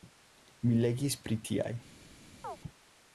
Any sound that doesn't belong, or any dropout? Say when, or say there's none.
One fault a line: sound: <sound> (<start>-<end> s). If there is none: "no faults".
sound: chirp (2.4-2.6 s)